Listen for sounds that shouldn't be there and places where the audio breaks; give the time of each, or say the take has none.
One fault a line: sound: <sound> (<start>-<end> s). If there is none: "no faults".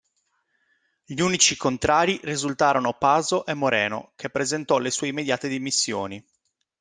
no faults